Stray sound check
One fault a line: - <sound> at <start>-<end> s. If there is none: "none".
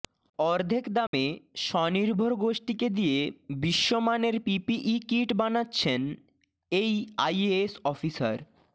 - dropout at 1.1-1.1 s